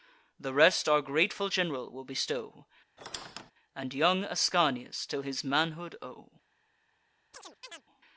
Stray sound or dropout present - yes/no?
yes